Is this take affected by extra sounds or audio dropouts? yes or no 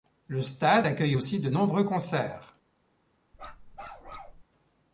yes